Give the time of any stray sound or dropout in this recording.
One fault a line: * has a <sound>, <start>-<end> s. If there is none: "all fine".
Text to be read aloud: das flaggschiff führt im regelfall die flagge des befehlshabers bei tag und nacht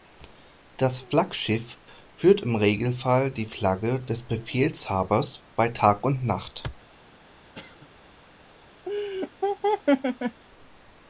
* has a cough, 7.5-7.9 s
* has a laugh, 8.9-10.4 s